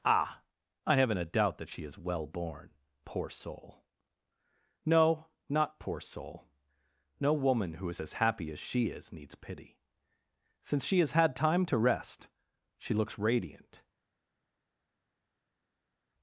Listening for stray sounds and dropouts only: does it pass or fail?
pass